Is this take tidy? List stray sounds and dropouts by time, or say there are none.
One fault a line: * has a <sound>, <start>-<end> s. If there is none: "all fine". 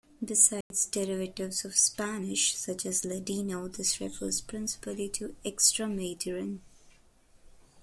* has a dropout, 0.6-0.7 s